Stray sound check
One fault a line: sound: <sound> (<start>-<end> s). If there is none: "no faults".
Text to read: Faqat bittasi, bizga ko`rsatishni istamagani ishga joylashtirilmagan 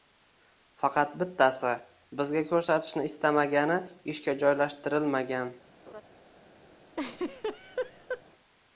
sound: laugh (5.9-6.0 s)
sound: laugh (6.9-8.2 s)